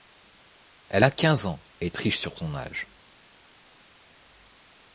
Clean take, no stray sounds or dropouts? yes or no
yes